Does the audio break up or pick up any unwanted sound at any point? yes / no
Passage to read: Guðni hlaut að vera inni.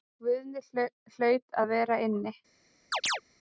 yes